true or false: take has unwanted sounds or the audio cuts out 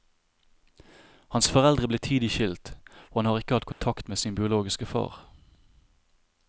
true